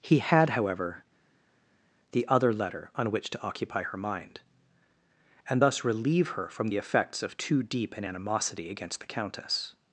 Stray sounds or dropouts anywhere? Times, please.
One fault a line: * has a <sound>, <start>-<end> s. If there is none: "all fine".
all fine